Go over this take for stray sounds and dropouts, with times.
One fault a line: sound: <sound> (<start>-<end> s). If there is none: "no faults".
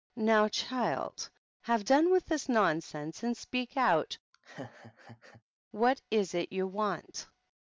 sound: laugh (4.3-5.4 s)